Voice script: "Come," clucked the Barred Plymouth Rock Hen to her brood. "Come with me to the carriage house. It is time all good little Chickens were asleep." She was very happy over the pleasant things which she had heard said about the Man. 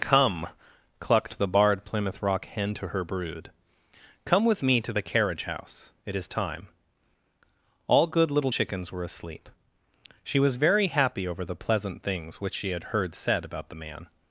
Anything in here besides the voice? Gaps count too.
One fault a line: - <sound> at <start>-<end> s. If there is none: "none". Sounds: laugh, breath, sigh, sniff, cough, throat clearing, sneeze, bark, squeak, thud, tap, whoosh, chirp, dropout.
none